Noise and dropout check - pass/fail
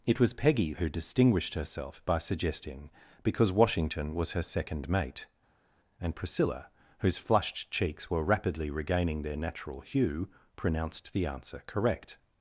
pass